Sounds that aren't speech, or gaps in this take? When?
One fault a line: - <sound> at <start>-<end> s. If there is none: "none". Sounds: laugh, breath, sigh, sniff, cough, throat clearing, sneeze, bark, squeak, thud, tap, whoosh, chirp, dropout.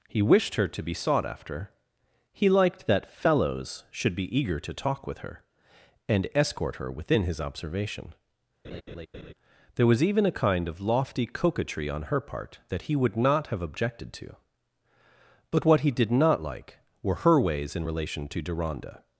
- laugh at 8.6-9.3 s